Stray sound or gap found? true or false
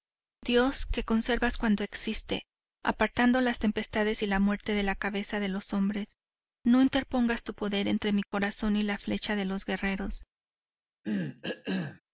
true